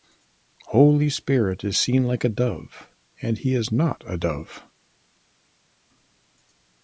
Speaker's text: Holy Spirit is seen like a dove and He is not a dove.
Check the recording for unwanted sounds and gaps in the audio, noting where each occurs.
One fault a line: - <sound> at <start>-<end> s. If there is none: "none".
none